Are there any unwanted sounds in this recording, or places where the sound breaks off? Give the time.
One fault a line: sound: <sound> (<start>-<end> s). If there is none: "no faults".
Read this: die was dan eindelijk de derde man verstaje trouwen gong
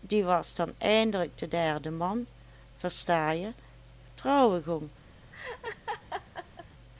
sound: laugh (5.3-6.7 s)